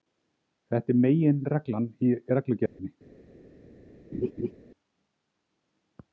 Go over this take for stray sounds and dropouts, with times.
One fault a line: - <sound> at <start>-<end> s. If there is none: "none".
- dropout at 2.7-2.8 s
- laugh at 4.1-4.5 s